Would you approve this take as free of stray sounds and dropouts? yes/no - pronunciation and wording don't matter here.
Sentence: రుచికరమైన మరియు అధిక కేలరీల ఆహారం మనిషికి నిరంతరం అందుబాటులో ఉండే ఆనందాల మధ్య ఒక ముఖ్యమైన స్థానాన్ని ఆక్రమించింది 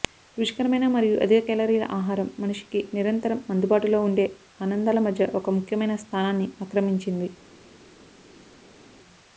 yes